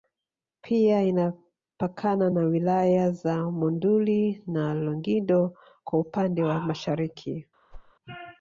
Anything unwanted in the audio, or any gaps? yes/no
yes